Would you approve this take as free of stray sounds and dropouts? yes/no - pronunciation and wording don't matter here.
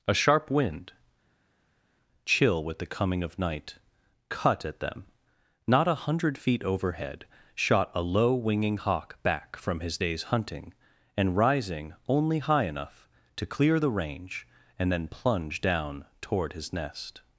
yes